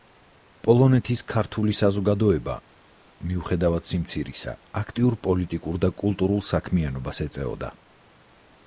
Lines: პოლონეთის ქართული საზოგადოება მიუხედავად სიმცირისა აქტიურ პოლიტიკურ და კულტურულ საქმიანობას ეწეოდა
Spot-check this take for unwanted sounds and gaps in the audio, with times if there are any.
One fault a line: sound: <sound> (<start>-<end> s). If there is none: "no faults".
no faults